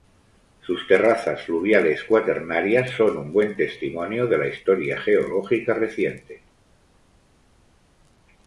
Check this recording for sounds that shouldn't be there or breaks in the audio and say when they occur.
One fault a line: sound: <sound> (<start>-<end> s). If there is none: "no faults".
no faults